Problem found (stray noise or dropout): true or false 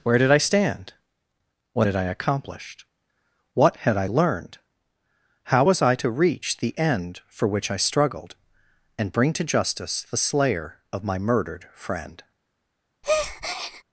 true